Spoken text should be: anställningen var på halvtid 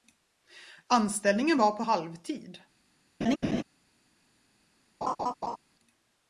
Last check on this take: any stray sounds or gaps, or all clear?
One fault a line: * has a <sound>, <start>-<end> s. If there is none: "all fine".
* has a laugh, 3.2-3.6 s
* has a laugh, 5.0-5.6 s